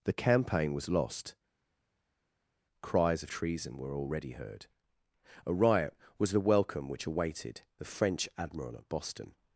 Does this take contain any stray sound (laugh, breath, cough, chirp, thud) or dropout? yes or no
no